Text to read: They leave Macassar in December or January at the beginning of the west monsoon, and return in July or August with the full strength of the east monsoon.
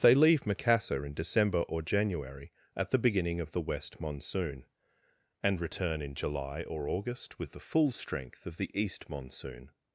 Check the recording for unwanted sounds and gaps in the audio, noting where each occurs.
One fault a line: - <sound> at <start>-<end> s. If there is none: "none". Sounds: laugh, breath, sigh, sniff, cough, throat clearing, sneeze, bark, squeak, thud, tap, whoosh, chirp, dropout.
none